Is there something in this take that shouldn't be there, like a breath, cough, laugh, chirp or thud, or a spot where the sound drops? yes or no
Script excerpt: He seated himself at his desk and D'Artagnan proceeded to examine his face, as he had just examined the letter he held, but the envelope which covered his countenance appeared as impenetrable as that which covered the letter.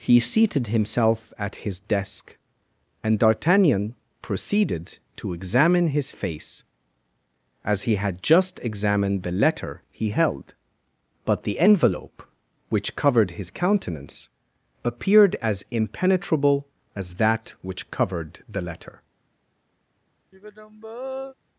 yes